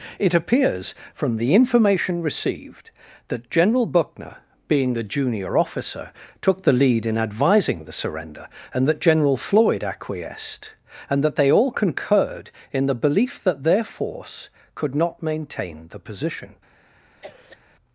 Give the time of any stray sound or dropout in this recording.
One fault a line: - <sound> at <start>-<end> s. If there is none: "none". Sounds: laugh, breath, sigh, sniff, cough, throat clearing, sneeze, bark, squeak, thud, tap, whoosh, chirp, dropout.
- cough at 17.2-17.6 s